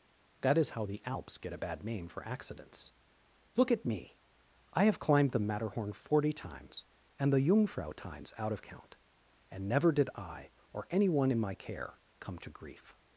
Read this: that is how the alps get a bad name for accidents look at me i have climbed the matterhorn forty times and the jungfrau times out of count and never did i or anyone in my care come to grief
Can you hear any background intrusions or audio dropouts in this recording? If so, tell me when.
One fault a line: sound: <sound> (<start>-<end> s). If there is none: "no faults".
no faults